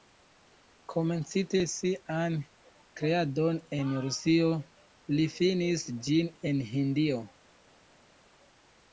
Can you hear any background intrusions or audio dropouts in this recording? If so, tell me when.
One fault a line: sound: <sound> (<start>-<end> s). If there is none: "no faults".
no faults